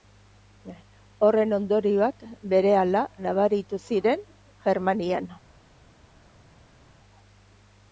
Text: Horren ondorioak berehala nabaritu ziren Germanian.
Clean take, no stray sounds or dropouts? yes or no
yes